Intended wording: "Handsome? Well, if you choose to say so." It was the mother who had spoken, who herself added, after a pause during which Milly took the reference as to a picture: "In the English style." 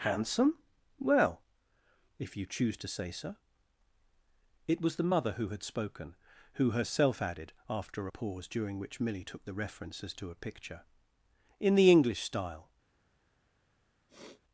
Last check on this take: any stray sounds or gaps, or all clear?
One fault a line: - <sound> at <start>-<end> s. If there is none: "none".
- sniff at 14.1-14.4 s